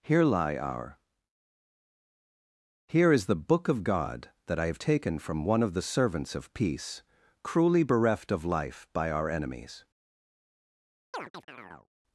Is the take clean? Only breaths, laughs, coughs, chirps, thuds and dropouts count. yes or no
no